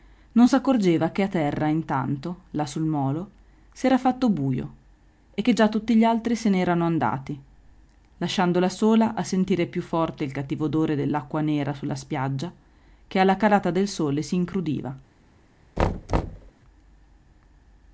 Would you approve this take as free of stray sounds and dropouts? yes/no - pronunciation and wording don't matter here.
no